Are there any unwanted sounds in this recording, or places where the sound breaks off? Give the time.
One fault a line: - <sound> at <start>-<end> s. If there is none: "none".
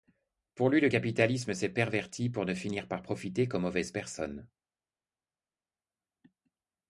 none